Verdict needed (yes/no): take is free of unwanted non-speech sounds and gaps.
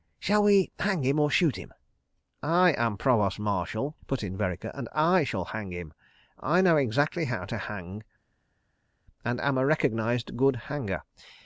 yes